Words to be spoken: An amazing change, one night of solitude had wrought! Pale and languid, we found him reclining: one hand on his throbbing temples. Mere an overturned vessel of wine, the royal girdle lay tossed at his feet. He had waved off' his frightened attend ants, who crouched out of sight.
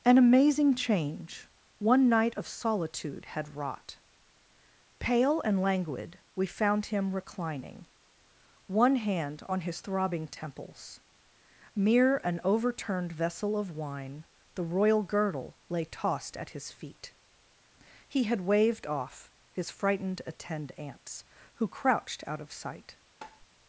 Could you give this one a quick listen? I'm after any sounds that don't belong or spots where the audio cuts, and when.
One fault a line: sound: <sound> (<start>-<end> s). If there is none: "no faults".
sound: tap (23.2-23.5 s)